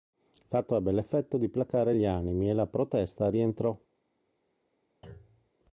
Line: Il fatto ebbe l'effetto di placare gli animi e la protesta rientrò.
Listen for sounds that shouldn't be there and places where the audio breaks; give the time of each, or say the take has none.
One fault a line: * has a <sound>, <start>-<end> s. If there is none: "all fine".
* has a thud, 5.0-5.5 s